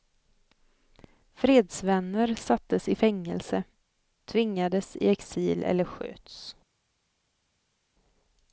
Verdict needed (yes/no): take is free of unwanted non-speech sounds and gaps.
yes